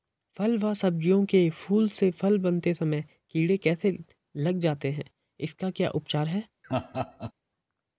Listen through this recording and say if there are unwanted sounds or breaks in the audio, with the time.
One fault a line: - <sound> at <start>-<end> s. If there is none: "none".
- laugh at 6.6-7.3 s